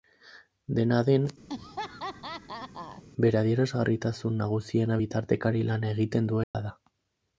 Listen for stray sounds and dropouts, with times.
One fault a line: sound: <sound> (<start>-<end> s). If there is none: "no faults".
sound: laugh (1.5-3.0 s)
sound: dropout (6.4-6.5 s)